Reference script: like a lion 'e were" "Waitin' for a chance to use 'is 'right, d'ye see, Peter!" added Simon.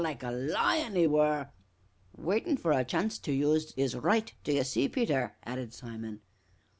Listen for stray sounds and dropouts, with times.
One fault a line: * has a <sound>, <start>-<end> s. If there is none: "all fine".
all fine